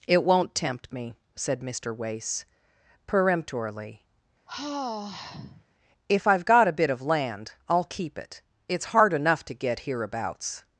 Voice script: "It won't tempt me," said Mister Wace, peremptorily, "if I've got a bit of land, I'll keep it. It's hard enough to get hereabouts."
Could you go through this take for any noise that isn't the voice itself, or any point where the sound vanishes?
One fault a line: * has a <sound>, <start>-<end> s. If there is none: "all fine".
* has a sigh, 4.5-5.6 s